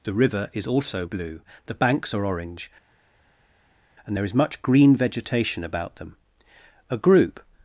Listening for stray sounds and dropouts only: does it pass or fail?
pass